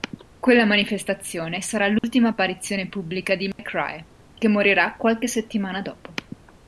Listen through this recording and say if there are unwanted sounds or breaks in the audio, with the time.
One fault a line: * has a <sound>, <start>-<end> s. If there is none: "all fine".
* has a dropout, 2.0-2.0 s
* has a dropout, 3.5-3.6 s